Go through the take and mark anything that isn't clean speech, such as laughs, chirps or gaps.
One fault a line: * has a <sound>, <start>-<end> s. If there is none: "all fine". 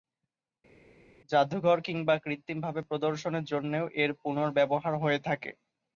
all fine